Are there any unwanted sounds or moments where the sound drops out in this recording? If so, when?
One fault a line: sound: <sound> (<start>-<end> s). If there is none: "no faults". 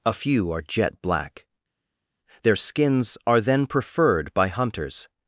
no faults